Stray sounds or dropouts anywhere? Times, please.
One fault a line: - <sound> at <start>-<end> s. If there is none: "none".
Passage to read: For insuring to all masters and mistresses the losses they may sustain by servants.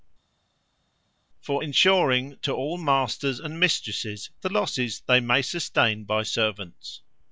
none